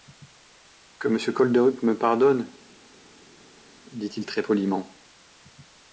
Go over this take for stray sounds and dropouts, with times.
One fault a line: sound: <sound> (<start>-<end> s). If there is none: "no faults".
no faults